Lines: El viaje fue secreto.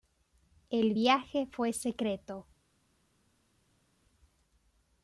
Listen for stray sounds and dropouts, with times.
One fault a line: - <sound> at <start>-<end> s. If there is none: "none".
none